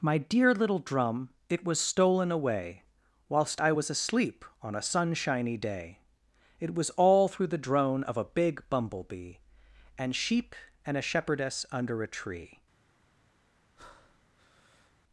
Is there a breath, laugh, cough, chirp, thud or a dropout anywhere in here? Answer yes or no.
yes